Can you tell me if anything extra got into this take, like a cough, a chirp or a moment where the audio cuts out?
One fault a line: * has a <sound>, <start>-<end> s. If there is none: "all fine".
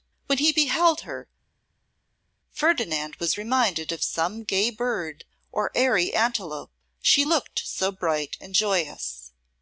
all fine